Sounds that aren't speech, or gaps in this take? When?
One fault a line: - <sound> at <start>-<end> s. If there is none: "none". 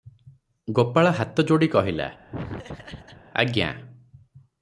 - laugh at 2.3-3.2 s